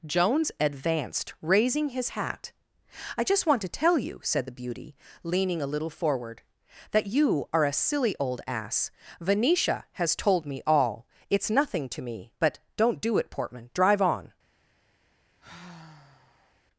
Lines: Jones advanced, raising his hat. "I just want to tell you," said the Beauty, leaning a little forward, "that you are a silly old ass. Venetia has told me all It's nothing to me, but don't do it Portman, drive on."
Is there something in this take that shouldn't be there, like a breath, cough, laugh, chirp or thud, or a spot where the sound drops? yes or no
yes